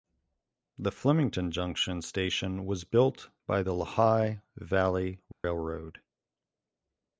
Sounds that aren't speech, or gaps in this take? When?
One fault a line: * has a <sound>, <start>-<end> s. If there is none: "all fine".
* has a dropout, 5.3-5.4 s